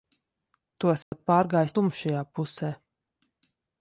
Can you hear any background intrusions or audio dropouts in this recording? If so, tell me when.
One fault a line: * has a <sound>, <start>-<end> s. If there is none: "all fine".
* has a dropout, 1.0-1.1 s